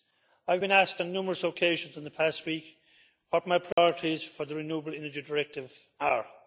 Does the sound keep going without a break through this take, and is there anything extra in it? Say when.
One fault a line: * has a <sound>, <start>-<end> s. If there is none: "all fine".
* has a dropout, 3.7-3.8 s